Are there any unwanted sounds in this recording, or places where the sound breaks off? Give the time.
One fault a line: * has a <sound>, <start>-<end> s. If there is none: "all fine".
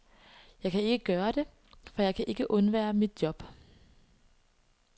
all fine